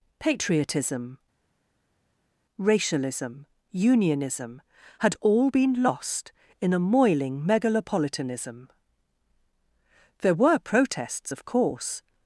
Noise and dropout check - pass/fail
pass